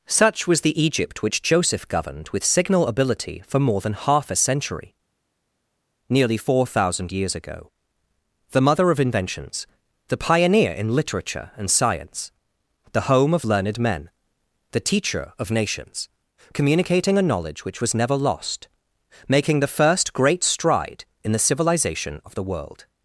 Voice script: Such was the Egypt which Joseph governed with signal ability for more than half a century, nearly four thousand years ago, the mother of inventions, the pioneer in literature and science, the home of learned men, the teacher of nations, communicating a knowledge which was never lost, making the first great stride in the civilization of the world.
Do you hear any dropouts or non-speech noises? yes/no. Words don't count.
no